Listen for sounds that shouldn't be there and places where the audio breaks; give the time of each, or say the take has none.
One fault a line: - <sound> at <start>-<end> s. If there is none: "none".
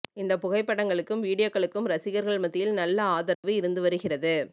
- dropout at 3.3-3.4 s